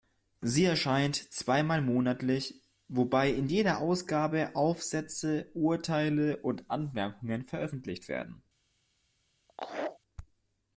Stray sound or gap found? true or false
true